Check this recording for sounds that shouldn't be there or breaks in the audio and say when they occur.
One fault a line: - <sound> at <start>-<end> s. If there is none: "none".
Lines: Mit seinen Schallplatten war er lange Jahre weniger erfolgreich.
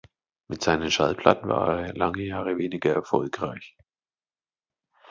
none